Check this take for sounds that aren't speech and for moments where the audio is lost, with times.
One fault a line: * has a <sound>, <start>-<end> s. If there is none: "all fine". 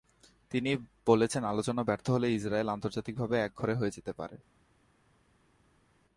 all fine